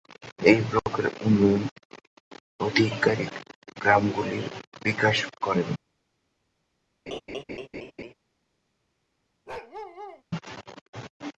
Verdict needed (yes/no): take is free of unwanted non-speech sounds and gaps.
no